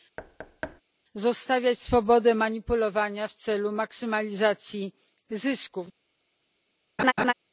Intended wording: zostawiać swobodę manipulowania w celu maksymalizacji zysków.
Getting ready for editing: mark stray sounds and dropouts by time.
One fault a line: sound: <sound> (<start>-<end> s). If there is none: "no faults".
sound: thud (0.2-0.8 s)
sound: laugh (7.0-7.3 s)